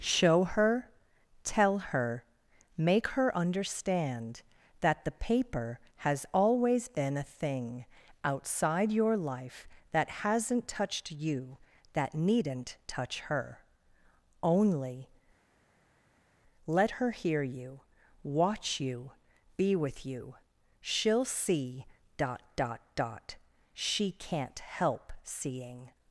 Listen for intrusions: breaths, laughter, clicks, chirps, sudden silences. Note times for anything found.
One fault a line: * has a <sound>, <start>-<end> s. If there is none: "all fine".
all fine